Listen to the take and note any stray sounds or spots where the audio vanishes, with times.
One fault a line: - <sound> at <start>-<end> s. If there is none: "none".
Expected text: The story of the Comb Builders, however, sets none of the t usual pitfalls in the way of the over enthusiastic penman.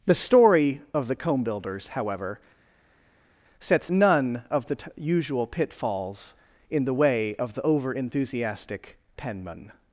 none